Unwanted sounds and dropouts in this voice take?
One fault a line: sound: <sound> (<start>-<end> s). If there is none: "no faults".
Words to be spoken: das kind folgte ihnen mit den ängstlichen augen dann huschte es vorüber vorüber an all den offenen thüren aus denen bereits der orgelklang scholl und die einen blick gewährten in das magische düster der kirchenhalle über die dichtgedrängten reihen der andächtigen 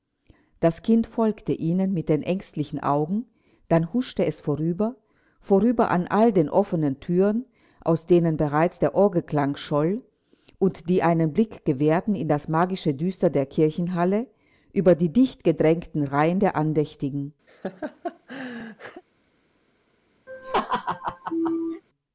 sound: laugh (17.5-19.0 s)
sound: laugh (20.3-21.8 s)